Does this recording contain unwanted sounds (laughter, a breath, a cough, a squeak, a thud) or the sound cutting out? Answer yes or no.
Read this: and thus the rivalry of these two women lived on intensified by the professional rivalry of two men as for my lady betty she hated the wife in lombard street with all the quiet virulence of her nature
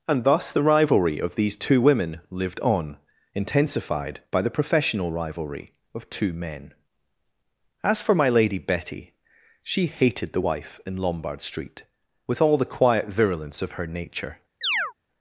yes